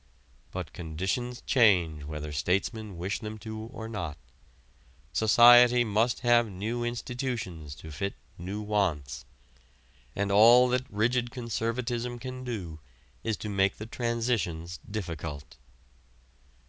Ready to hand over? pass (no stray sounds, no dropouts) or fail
pass